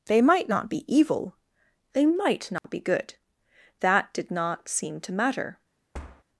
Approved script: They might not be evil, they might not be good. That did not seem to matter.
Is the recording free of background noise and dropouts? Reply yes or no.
no